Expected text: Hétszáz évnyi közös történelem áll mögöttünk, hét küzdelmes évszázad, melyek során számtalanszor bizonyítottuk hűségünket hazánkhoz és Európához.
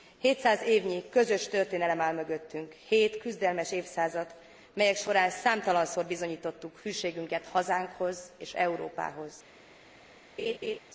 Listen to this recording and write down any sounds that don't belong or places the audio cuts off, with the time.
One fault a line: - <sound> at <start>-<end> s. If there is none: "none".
- laugh at 10.4-10.8 s